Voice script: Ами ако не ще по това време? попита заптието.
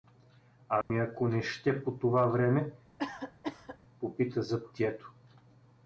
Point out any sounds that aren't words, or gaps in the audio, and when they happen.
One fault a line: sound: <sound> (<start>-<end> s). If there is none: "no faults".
sound: dropout (0.8-0.9 s)
sound: cough (3.0-3.8 s)